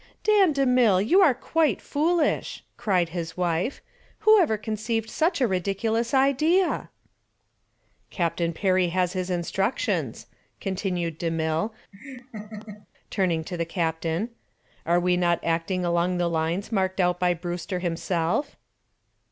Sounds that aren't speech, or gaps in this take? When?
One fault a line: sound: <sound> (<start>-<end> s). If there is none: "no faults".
sound: laugh (11.9-12.9 s)